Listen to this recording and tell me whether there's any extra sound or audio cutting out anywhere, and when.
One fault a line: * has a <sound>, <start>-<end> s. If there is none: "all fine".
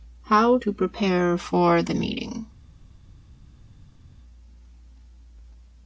all fine